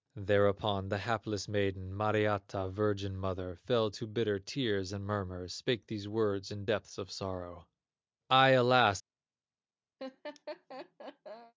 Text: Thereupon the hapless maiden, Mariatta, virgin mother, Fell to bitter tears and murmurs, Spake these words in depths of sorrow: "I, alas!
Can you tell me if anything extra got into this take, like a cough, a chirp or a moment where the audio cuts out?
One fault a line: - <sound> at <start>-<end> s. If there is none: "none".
- laugh at 10.0-11.5 s